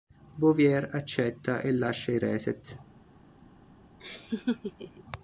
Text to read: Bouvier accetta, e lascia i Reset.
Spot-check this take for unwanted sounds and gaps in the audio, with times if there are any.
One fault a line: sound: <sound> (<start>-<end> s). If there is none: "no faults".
sound: laugh (4.0-5.0 s)